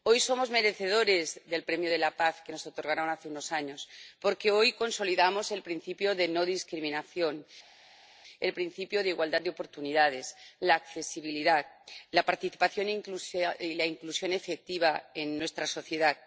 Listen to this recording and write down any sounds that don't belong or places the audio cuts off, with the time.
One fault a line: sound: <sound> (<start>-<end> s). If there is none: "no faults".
no faults